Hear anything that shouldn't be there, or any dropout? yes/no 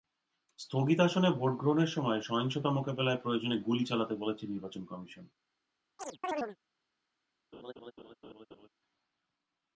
yes